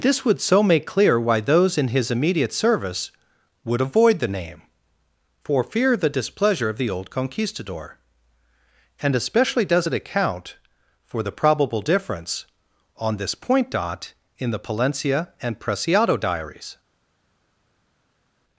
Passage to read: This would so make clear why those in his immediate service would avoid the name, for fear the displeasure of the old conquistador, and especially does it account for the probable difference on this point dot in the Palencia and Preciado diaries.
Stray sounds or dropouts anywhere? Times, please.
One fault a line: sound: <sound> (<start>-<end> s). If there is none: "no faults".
no faults